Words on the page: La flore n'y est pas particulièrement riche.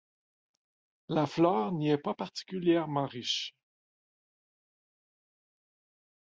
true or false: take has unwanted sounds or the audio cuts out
false